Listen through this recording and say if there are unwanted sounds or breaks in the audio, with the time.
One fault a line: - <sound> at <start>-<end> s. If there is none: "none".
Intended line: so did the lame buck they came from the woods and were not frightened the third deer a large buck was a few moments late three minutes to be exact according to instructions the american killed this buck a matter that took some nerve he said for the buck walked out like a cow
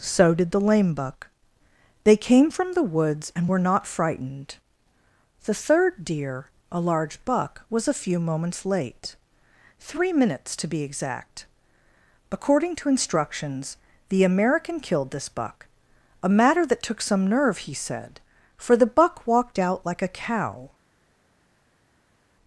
none